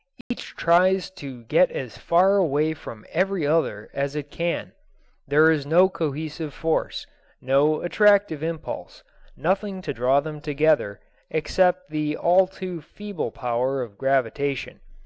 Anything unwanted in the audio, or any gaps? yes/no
yes